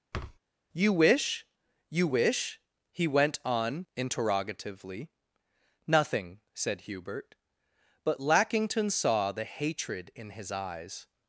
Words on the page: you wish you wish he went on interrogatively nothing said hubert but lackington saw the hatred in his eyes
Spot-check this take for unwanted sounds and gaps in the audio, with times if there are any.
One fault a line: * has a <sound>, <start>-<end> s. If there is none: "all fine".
* has a thud, 0.1-0.4 s